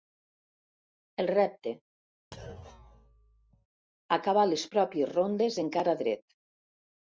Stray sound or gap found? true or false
true